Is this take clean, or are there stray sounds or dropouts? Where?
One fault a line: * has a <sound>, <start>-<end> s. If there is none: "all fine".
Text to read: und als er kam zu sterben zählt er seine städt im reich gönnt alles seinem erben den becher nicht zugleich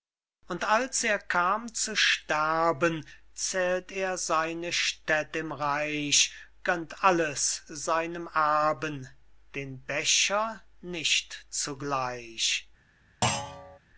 * has a thud, 13.2-13.8 s